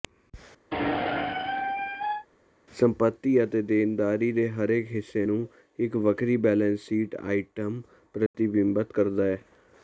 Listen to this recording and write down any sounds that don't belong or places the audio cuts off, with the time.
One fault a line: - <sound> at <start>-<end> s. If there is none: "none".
- squeak at 0.7-2.3 s
- dropout at 8.3-8.3 s